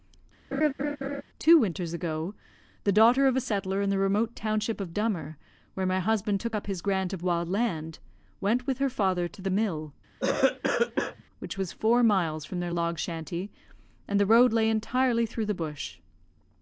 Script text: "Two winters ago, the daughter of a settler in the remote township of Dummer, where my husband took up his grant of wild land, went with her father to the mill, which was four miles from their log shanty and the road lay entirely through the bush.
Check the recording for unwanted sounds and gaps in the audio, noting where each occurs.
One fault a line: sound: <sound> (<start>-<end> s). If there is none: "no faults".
sound: laugh (0.5-1.2 s)
sound: cough (10.2-11.2 s)